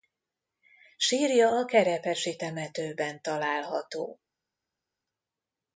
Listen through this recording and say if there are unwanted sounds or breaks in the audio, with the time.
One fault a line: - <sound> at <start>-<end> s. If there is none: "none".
none